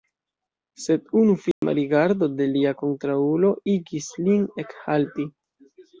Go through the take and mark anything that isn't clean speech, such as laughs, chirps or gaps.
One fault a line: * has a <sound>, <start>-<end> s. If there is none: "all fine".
* has a dropout, 1.5-1.6 s